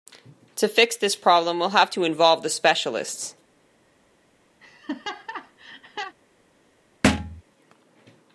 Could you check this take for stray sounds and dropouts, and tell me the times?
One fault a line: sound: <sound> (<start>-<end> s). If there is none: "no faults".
sound: laugh (4.6-6.2 s)
sound: thud (7.0-7.4 s)